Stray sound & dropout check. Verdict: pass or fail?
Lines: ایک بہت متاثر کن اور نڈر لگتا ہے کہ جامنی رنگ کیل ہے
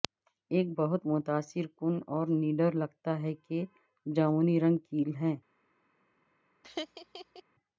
fail